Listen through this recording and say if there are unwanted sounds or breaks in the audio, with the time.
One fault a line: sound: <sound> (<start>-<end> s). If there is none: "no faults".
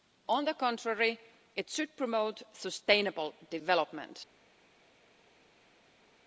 no faults